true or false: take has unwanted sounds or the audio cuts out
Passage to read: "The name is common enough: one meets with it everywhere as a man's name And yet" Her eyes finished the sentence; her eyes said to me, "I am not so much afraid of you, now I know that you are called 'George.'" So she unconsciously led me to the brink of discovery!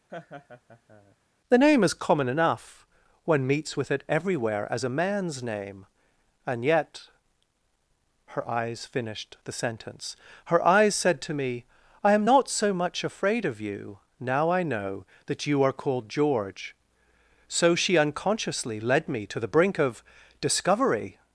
true